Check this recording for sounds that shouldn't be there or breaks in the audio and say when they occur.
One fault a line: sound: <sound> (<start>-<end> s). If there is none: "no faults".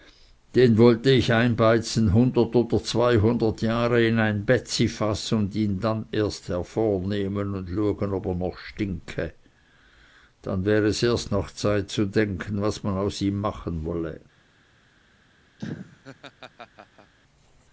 sound: laugh (15.6-17.1 s)